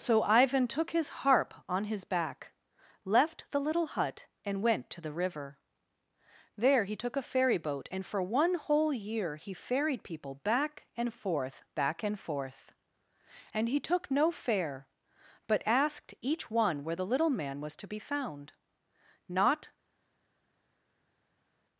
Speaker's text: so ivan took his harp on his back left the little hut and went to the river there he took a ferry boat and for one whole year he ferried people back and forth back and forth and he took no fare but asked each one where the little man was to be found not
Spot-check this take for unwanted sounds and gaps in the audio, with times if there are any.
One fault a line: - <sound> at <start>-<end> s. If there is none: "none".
none